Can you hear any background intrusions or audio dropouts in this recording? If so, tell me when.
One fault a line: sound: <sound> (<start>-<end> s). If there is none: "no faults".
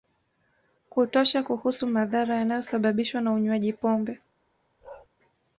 sound: bark (4.8-5.1 s)